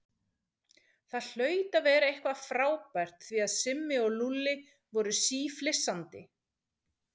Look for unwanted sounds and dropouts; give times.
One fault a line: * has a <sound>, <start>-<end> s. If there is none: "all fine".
all fine